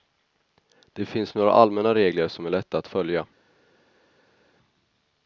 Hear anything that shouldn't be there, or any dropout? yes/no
no